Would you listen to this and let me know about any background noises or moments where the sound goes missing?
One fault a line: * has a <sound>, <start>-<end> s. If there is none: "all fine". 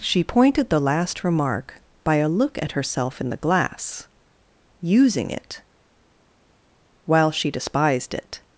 all fine